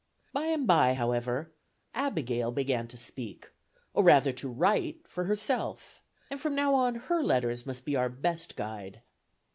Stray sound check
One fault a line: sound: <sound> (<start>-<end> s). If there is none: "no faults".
no faults